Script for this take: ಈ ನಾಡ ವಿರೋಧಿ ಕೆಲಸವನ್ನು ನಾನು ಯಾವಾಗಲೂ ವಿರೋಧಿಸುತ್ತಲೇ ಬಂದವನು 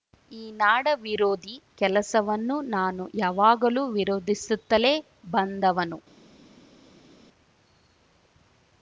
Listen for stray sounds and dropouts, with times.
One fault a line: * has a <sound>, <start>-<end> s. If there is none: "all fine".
all fine